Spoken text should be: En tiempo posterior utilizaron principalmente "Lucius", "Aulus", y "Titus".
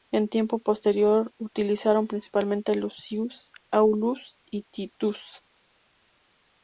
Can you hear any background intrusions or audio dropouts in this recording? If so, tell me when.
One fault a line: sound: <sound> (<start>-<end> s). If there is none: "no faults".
no faults